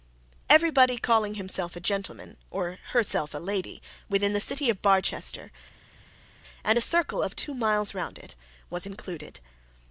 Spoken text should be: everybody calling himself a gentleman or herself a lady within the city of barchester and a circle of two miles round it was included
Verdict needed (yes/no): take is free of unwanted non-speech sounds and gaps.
yes